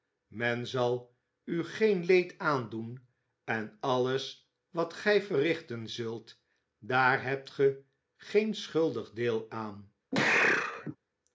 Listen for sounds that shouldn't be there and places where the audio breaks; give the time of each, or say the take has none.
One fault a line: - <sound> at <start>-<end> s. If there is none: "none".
- sneeze at 10.1-11.0 s